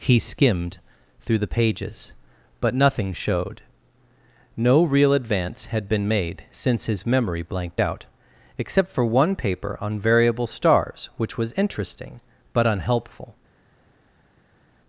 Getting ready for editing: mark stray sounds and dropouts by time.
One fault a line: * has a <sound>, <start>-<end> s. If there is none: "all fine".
all fine